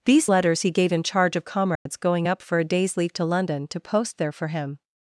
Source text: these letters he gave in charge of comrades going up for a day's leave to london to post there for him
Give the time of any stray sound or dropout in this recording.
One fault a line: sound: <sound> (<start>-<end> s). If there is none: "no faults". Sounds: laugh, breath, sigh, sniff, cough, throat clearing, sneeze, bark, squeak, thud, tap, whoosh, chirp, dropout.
sound: dropout (1.8-1.9 s)